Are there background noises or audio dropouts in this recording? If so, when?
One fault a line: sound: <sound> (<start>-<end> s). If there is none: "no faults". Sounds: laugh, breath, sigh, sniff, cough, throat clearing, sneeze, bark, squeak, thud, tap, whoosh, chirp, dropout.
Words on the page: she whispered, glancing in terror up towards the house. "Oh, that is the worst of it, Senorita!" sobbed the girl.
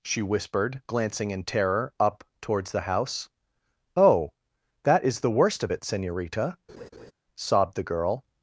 sound: laugh (6.7-7.1 s)